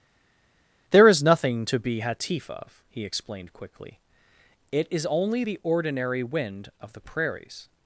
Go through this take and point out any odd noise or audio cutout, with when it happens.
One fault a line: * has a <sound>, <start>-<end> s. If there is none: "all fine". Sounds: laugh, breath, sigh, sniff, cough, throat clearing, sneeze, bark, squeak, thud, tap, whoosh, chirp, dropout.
all fine